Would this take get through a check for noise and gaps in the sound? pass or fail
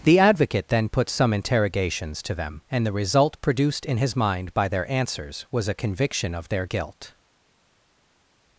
pass